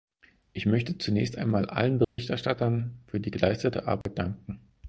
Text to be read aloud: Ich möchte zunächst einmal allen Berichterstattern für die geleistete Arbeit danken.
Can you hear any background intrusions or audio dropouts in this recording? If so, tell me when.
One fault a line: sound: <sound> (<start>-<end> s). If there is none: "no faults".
sound: dropout (2.0-2.2 s)
sound: dropout (4.0-4.1 s)